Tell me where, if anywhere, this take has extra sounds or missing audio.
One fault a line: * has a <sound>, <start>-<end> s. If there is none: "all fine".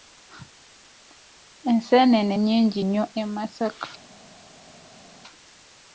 all fine